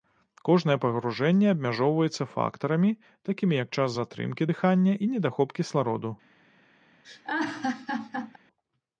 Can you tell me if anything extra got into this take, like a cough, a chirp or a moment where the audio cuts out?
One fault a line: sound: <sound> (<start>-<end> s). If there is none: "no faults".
sound: laugh (7.0-8.4 s)